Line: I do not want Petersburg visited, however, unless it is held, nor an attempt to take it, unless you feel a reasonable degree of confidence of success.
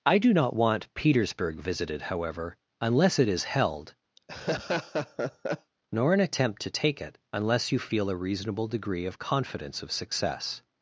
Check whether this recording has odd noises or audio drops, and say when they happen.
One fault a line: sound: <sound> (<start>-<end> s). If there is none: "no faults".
sound: laugh (4.2-5.7 s)